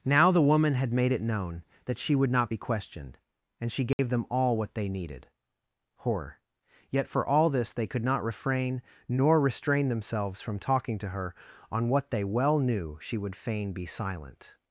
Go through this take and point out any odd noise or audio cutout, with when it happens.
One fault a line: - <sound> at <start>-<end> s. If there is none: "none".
- dropout at 3.9-4.0 s